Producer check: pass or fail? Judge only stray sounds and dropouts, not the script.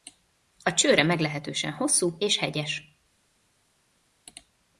pass